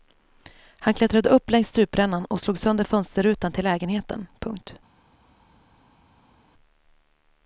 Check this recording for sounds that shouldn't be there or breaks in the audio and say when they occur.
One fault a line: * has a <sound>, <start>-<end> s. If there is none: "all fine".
all fine